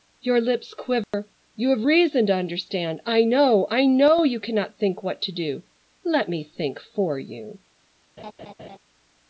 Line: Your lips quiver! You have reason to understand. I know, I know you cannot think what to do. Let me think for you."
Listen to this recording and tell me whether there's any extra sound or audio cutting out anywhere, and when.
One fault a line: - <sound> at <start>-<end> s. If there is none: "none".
- dropout at 1.0-1.1 s
- laugh at 8.2-8.8 s